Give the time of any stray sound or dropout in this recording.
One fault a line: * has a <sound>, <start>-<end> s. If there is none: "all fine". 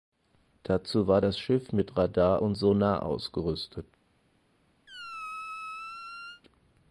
* has a squeak, 4.9-6.4 s